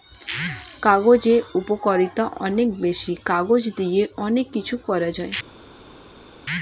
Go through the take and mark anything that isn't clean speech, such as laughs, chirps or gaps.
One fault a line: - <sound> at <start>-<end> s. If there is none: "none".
none